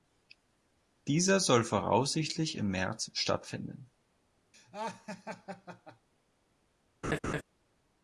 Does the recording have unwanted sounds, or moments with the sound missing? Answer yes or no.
yes